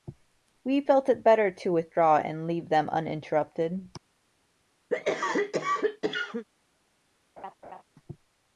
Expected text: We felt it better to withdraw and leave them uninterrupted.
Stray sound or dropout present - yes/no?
yes